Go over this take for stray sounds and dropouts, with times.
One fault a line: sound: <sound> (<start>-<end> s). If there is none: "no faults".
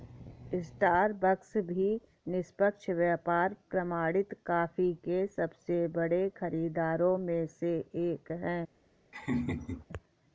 sound: laugh (9.1-9.9 s)